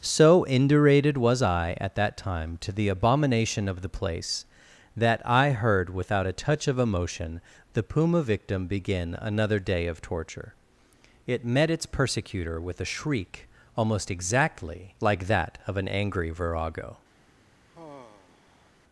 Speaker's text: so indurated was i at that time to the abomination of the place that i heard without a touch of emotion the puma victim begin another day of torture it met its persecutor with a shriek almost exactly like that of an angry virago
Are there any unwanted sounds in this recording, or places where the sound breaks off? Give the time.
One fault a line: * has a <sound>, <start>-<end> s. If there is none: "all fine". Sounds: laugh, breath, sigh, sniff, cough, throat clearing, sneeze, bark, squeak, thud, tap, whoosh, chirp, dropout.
* has a sigh, 17.7-18.7 s